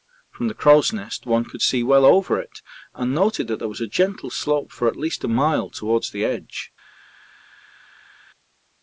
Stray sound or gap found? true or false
false